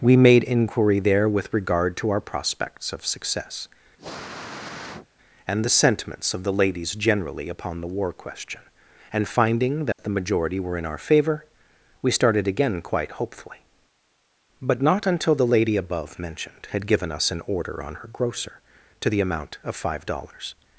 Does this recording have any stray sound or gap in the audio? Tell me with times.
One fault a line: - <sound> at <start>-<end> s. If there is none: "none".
- sniff at 4.0-5.1 s
- dropout at 9.9-10.0 s